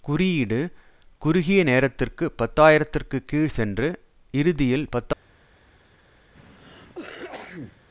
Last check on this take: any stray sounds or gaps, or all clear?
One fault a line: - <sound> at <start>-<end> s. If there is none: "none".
- cough at 6.4-7.8 s